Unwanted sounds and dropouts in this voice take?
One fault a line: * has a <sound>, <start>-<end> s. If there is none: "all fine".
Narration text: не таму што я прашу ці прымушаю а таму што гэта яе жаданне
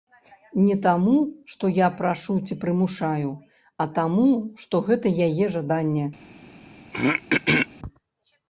* has a throat clearing, 6.9-7.7 s